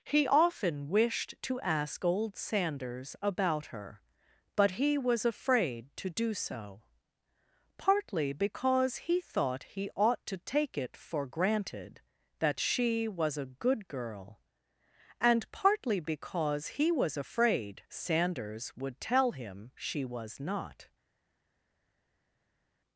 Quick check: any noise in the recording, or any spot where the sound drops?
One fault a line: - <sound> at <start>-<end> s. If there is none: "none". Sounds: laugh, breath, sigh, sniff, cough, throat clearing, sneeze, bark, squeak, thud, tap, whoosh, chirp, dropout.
none